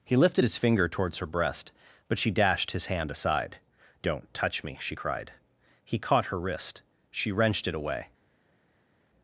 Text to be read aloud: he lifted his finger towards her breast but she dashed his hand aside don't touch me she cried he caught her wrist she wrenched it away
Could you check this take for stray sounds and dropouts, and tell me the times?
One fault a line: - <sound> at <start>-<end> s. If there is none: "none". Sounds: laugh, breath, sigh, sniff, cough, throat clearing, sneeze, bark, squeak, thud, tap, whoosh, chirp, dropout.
none